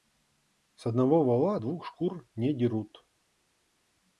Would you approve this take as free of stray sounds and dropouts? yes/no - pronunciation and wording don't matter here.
yes